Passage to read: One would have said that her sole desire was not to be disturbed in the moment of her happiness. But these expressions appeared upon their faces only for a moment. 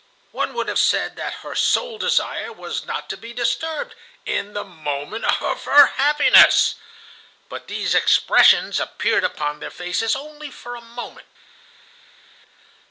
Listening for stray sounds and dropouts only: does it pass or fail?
pass